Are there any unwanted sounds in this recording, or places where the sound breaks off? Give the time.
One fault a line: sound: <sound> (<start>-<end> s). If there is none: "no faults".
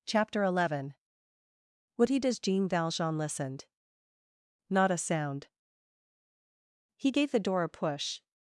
no faults